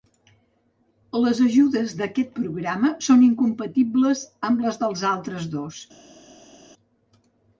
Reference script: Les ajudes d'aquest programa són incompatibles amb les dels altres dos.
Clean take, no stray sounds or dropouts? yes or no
yes